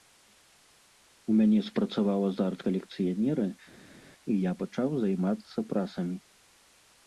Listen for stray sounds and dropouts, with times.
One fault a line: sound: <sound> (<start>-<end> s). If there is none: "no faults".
no faults